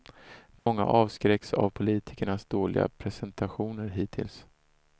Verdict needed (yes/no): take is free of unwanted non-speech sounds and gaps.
no